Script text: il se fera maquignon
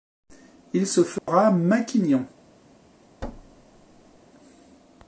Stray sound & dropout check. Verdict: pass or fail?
fail